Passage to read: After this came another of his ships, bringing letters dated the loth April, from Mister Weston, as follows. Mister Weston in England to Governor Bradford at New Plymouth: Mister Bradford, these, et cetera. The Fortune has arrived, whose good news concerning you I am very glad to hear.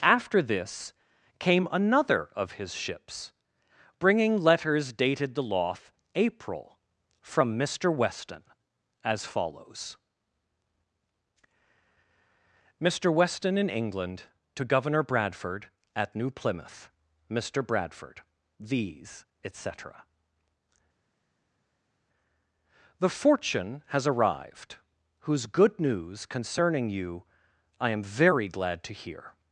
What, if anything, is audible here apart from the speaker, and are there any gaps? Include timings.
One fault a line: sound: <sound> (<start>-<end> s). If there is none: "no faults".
no faults